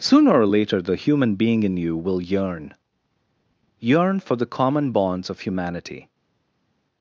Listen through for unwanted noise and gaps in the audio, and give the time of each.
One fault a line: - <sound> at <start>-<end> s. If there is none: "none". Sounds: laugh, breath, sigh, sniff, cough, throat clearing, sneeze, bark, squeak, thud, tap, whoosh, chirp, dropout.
none